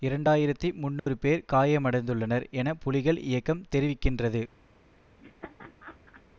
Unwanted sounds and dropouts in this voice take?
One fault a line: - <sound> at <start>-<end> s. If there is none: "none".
- dropout at 1.0-1.1 s
- laugh at 5.2-6.2 s